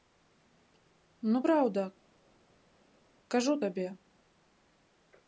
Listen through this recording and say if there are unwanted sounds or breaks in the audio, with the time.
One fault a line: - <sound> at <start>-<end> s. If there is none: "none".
none